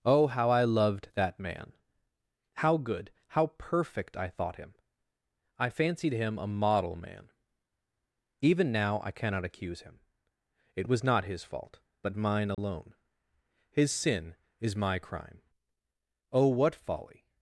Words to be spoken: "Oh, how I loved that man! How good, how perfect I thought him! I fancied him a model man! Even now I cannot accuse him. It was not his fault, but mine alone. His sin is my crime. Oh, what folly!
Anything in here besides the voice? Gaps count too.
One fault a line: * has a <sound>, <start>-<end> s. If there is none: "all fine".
* has a dropout, 12.5-12.6 s